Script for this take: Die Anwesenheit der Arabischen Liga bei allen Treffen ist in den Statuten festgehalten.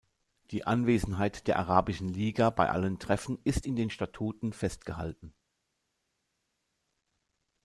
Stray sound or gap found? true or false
false